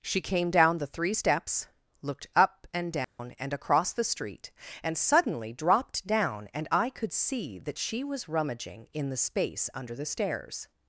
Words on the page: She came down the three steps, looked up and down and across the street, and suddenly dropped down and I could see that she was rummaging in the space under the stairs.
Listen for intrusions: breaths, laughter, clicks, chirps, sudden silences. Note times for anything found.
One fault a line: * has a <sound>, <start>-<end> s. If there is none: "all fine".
* has a dropout, 3.0-3.2 s